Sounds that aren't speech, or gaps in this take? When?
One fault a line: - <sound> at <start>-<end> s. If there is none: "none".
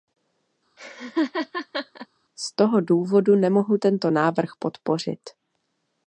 - laugh at 0.8-2.1 s